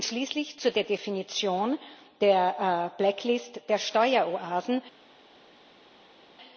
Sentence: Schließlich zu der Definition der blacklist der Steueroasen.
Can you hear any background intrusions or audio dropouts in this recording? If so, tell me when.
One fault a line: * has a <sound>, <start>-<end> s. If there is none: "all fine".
all fine